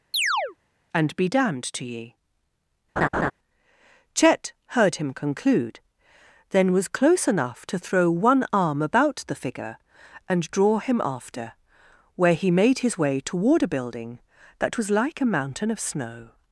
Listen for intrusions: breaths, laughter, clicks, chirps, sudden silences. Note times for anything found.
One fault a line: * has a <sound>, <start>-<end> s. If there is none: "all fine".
* has a chirp, 0.1-0.6 s
* has a laugh, 3.0-3.3 s